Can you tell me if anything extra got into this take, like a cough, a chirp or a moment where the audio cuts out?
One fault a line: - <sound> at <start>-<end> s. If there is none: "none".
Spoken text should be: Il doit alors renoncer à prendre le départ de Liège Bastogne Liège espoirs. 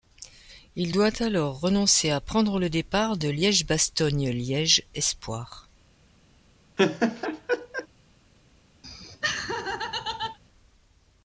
- laugh at 6.8-7.9 s
- laugh at 8.8-10.4 s